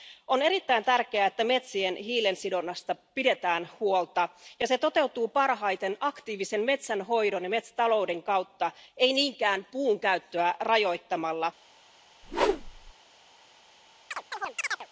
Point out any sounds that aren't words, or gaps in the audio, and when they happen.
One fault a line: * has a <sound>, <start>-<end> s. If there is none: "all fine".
* has a whoosh, 12.2-12.9 s
* has a chirp, 14.1-14.9 s